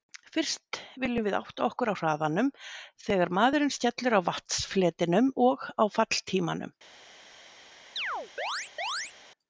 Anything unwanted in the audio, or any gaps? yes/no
yes